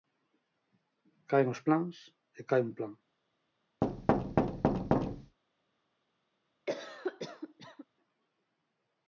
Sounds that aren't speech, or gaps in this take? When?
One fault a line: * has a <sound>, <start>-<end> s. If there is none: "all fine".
* has a thud, 3.8-5.4 s
* has a cough, 6.7-7.9 s